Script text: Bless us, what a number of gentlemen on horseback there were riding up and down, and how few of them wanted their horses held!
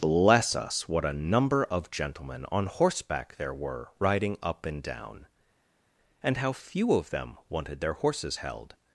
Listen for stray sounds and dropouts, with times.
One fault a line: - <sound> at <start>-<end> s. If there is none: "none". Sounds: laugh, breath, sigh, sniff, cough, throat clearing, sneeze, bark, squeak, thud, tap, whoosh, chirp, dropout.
none